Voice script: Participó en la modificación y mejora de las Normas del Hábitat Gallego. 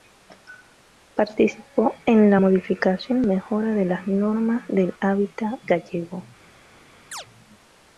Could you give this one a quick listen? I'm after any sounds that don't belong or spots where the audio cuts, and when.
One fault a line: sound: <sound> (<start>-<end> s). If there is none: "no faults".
sound: chirp (7.1-7.3 s)